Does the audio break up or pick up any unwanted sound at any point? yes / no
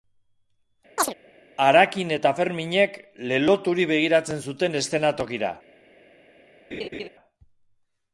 yes